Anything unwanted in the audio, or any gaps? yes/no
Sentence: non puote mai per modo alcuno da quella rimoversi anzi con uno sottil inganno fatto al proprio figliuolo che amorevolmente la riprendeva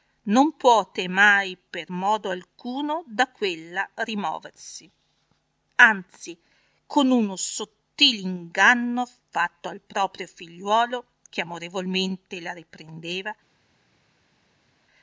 no